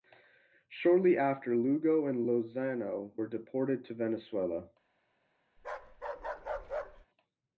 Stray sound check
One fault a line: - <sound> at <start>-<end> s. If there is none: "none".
- bark at 5.6-7.1 s